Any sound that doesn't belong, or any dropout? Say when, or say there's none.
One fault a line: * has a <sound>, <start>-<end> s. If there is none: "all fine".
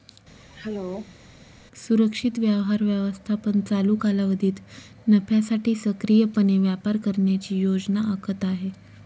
* has a throat clearing, 0.4-1.2 s